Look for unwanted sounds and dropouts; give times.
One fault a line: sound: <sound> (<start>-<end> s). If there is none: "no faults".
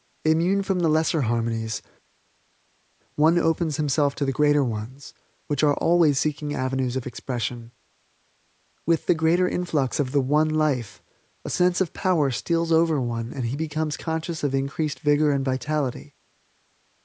no faults